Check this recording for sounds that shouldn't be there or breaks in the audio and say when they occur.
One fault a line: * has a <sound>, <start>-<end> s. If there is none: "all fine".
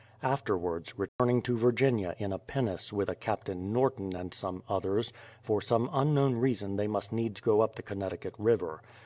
* has a dropout, 1.1-1.2 s